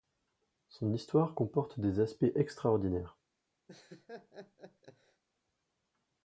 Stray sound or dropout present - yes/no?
yes